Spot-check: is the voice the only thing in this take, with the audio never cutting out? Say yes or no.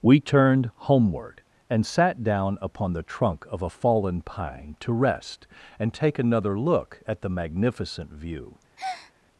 no